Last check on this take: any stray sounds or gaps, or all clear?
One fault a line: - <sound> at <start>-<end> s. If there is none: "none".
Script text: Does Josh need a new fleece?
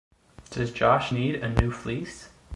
none